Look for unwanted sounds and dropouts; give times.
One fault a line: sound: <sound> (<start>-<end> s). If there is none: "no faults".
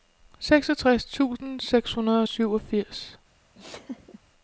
sound: laugh (3.5-4.2 s)